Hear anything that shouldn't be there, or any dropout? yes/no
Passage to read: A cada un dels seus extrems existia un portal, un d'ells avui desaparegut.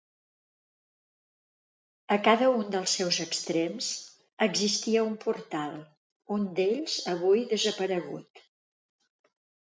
no